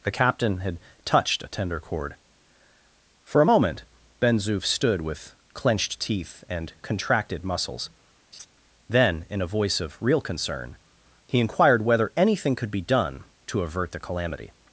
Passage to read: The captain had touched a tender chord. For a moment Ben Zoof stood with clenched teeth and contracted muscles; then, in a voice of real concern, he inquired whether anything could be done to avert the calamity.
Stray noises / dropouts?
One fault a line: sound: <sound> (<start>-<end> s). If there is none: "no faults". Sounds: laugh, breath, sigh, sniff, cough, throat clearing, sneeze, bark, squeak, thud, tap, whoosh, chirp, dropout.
sound: laugh (8.3-8.5 s)